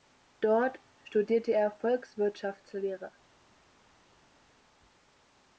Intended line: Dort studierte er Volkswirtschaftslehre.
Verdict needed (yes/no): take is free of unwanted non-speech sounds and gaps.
yes